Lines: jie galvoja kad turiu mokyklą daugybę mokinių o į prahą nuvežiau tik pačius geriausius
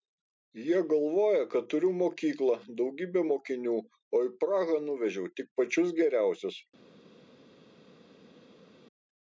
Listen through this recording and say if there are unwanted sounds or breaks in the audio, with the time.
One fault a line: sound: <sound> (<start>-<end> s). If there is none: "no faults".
no faults